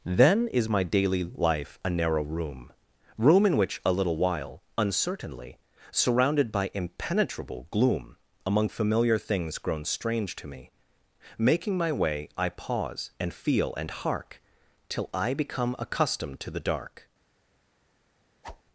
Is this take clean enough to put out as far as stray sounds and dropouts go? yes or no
no